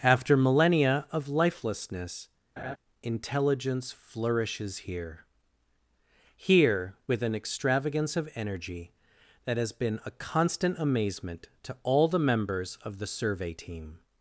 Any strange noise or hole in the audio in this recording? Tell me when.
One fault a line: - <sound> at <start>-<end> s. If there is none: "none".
- laugh at 2.6-2.8 s